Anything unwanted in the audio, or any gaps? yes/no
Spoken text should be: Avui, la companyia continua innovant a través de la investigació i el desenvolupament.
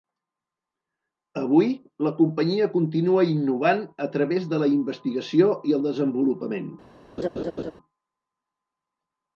yes